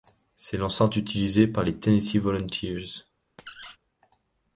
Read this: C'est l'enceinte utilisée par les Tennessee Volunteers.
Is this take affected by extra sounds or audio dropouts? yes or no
yes